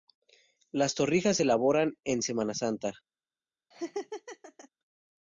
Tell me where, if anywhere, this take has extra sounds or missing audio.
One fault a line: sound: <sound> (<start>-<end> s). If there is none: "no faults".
sound: laugh (3.7-4.7 s)